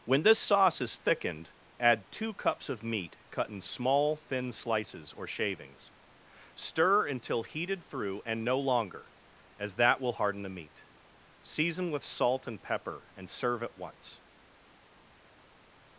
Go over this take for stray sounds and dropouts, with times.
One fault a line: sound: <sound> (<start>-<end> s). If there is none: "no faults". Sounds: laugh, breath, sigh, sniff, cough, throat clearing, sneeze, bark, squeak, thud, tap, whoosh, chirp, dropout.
no faults